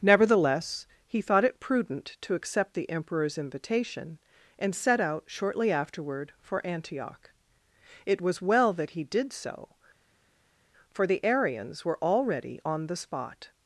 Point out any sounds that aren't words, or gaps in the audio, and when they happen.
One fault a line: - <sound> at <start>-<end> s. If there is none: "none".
none